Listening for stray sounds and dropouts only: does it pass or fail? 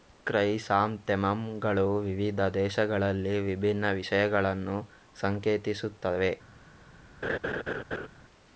fail